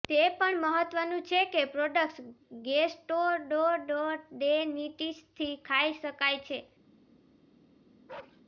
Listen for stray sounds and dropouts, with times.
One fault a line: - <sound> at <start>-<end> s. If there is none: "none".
- bark at 8.1-8.4 s